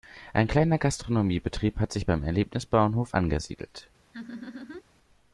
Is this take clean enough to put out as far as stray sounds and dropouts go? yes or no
no